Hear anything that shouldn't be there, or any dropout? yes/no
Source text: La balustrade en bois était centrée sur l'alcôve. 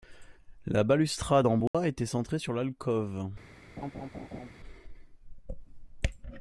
yes